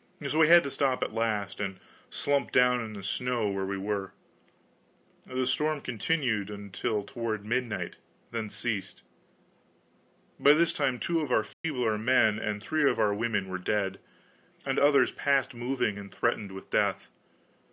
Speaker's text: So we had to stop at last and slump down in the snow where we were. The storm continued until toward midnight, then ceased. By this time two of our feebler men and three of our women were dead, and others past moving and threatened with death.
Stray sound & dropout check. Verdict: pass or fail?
fail